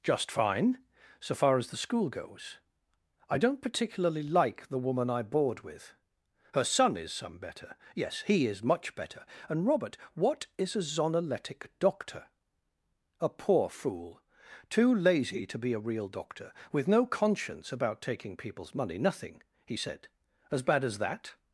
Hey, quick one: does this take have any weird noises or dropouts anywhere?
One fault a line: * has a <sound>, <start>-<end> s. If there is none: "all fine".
all fine